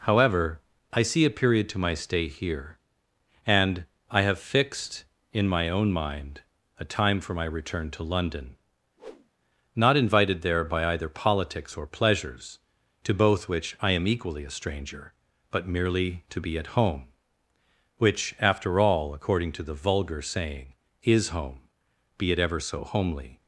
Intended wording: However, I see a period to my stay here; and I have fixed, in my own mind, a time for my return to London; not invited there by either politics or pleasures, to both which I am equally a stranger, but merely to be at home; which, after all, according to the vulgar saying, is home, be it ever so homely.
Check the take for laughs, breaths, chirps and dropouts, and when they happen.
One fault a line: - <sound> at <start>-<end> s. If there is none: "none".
- whoosh at 9.0-9.3 s